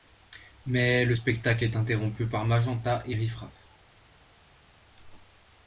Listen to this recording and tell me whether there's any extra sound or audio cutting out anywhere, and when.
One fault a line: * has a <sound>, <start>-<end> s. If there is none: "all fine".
all fine